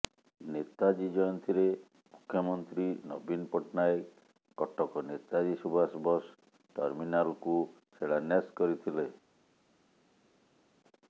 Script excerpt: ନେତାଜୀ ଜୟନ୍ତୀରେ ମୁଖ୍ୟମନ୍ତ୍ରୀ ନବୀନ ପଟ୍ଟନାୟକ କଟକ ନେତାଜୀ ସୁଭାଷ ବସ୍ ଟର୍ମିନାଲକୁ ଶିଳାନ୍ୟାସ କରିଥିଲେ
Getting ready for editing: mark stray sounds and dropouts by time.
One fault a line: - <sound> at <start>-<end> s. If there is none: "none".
none